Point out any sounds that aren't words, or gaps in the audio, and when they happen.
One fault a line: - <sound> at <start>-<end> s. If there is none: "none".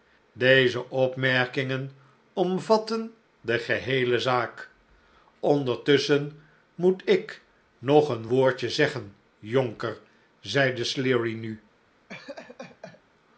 - laugh at 12.1-13.0 s